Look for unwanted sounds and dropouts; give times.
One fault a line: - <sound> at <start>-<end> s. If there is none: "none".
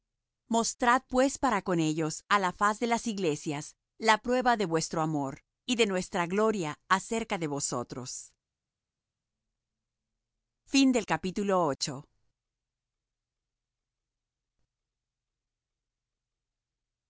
none